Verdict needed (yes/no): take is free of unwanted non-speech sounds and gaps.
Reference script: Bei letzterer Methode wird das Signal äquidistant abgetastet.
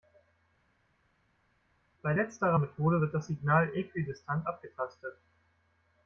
yes